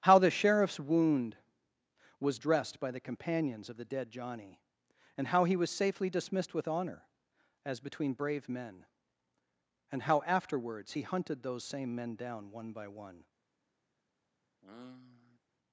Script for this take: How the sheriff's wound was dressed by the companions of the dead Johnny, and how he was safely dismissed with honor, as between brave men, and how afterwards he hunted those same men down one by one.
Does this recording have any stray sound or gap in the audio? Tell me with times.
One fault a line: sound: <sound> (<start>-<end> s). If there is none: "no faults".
sound: sigh (14.6-15.4 s)